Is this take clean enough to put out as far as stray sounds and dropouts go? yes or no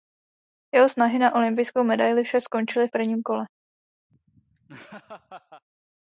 no